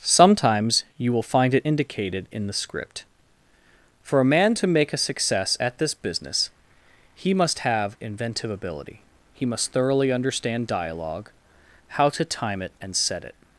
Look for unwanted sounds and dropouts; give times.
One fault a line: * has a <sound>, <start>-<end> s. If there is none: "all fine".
all fine